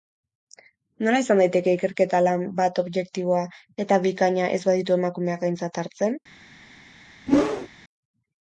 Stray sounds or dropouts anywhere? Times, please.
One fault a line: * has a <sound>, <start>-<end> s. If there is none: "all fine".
* has a whoosh, 7.3-7.7 s